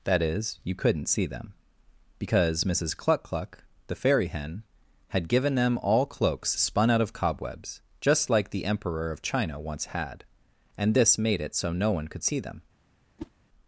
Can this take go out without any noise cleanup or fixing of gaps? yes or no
no